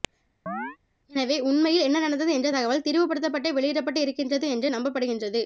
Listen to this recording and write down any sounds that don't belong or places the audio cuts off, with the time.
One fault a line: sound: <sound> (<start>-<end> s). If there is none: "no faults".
sound: chirp (0.5-0.8 s)